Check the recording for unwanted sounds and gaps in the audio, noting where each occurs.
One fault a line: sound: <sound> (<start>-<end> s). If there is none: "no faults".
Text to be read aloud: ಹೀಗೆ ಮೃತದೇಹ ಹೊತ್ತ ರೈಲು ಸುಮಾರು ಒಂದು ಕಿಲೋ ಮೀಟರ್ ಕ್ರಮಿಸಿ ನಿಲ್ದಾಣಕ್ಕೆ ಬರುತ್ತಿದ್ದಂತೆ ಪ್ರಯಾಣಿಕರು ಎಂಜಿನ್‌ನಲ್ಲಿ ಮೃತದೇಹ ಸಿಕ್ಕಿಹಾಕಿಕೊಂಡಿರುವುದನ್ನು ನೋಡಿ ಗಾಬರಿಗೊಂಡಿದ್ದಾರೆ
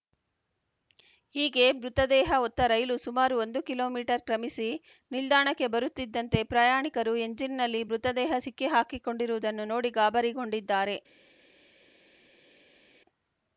no faults